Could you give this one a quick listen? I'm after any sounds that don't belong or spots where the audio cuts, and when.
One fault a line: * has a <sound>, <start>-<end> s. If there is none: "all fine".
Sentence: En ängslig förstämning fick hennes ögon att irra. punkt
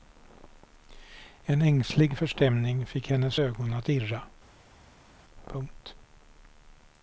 all fine